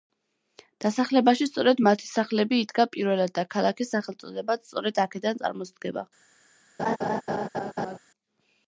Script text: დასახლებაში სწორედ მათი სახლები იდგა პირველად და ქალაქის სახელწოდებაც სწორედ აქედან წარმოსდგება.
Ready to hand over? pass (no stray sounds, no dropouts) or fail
fail